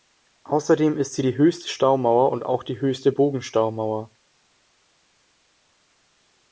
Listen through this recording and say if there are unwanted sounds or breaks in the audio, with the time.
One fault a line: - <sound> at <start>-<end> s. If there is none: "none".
none